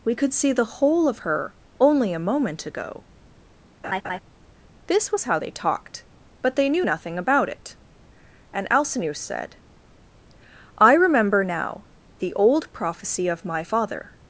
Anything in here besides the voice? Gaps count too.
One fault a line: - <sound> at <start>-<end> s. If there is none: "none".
- laugh at 3.8-4.2 s